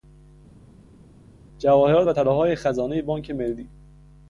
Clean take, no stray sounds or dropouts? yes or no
yes